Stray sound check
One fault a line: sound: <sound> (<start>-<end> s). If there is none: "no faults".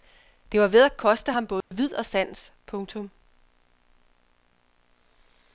sound: dropout (1.6-1.7 s)